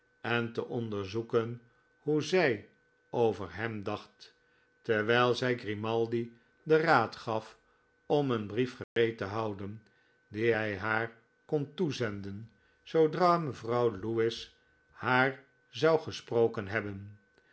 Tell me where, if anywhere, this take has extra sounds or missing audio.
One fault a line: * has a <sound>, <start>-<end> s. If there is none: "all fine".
* has a dropout, 8.8-9.0 s